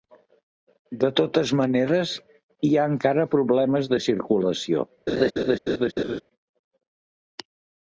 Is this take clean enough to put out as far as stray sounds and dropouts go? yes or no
no